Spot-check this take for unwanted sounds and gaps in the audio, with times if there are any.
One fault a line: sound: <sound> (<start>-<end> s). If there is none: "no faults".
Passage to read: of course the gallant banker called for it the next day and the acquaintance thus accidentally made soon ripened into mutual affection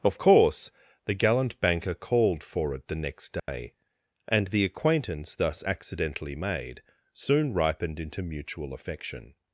sound: dropout (3.4-3.5 s)